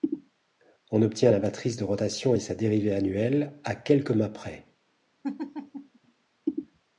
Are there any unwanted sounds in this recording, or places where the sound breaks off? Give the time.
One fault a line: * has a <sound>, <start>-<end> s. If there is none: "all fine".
* has a laugh, 5.2-6.0 s